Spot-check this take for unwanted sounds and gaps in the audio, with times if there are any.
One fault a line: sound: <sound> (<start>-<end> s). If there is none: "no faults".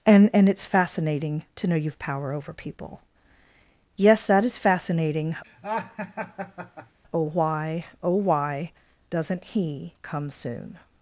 sound: laugh (5.4-7.0 s)